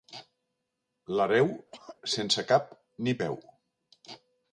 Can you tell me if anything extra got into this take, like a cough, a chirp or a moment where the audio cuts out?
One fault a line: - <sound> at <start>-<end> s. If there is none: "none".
- cough at 1.7-2.0 s